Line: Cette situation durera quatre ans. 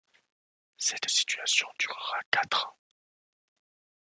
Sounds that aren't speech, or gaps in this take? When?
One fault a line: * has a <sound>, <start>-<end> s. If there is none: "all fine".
all fine